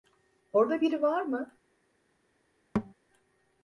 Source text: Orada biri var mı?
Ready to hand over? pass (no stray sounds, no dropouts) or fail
fail